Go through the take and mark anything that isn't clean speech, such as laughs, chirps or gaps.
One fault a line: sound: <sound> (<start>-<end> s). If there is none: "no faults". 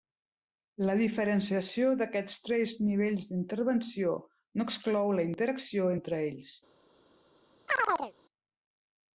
sound: chirp (7.7-8.1 s)